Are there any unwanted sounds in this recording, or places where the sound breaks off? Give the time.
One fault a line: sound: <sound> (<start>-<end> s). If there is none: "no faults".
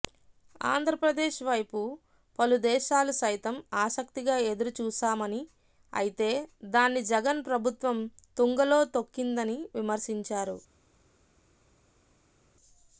no faults